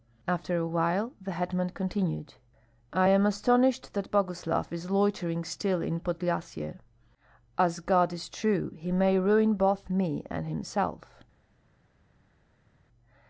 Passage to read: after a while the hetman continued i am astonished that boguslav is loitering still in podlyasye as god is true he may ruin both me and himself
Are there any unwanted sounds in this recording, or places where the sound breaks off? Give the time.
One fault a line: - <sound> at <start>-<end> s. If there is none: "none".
none